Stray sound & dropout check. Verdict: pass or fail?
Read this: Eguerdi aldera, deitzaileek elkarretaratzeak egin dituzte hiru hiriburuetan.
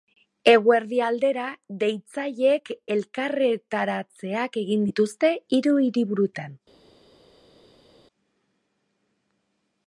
pass